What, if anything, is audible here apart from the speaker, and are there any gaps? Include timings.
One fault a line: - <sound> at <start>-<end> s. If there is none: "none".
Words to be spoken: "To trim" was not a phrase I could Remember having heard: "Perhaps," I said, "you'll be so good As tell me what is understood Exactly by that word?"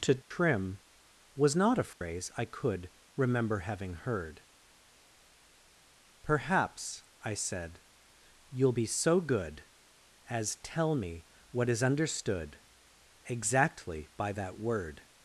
- dropout at 0.2-0.3 s
- dropout at 1.9-2.0 s